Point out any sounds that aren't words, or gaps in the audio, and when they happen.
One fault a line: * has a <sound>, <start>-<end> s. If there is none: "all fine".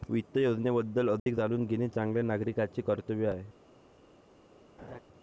* has a dropout, 1.2-1.3 s
* has a laugh, 4.8-5.0 s